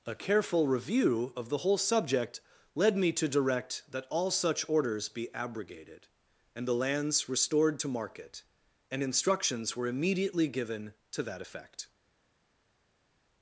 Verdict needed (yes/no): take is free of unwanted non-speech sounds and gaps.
yes